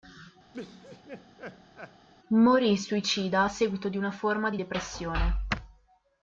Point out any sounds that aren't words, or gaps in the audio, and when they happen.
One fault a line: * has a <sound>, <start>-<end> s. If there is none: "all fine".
* has a laugh, 0.5-2.1 s